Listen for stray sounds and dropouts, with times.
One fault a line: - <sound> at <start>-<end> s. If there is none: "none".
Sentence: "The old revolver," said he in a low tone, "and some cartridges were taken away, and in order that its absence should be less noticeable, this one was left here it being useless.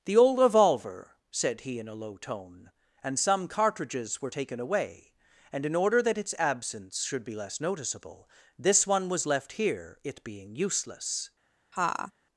- laugh at 11.7-12.1 s